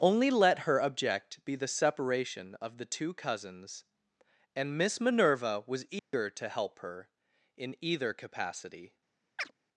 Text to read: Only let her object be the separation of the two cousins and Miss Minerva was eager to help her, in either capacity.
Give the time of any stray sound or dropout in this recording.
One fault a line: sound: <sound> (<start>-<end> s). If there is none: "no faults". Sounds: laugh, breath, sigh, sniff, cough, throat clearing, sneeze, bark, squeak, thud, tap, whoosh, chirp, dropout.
sound: dropout (6.0-6.1 s)
sound: chirp (9.4-9.5 s)